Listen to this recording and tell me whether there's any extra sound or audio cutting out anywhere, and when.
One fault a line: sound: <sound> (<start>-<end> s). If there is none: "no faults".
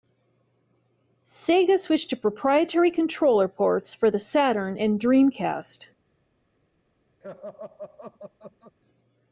sound: laugh (7.2-8.7 s)